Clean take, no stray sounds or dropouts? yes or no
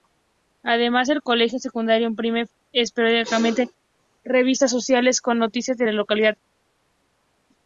yes